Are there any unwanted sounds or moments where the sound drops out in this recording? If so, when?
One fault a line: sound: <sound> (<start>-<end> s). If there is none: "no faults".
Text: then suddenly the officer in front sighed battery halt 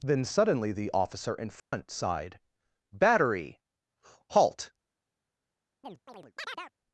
sound: dropout (1.6-1.7 s)
sound: chirp (5.8-6.7 s)